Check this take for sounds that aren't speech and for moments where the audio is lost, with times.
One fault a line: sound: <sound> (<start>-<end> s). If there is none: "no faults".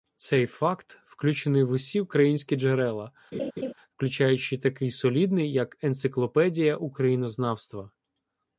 sound: laugh (3.3-3.7 s)